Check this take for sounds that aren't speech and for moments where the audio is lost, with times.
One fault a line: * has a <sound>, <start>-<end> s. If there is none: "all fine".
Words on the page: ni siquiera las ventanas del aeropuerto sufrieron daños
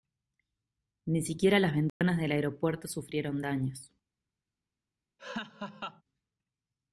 * has a dropout, 1.9-2.0 s
* has a laugh, 5.2-6.0 s